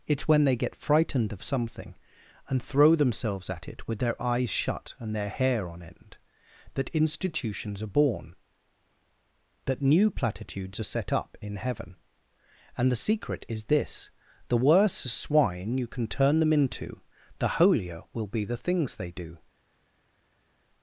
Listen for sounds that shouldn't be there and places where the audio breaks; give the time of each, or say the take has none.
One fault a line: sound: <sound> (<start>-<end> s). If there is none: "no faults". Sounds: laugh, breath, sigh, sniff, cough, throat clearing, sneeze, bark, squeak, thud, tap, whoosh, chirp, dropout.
no faults